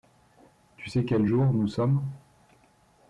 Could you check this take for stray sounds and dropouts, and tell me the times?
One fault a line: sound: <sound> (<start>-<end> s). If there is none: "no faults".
no faults